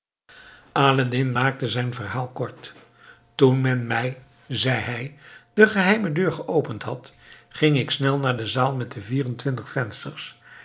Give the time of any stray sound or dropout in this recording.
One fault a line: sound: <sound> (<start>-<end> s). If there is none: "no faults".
no faults